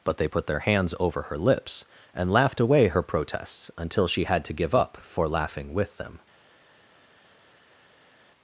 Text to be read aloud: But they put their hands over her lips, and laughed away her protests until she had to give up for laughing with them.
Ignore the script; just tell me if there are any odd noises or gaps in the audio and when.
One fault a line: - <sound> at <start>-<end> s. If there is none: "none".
none